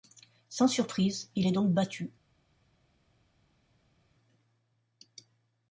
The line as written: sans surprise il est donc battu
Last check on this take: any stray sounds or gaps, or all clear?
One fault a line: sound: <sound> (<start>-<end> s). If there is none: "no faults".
no faults